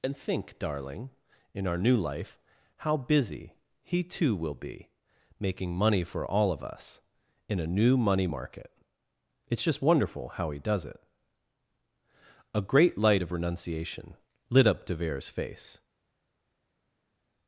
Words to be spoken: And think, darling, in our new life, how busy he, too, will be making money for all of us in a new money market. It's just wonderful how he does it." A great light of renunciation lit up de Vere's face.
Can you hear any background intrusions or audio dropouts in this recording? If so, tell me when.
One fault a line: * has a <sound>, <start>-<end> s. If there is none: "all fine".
all fine